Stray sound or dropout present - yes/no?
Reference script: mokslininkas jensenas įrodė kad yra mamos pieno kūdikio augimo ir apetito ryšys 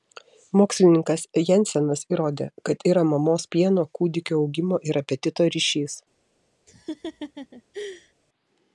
yes